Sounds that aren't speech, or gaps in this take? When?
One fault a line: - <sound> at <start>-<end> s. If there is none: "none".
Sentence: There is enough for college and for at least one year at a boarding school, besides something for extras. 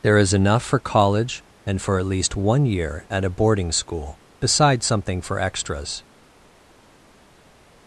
none